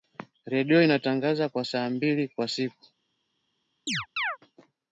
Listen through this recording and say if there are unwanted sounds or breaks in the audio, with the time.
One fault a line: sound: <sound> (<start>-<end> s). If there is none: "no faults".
sound: chirp (3.9-4.4 s)